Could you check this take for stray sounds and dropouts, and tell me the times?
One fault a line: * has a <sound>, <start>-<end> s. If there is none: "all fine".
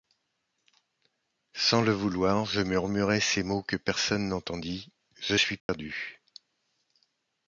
* has a dropout, 5.6-5.7 s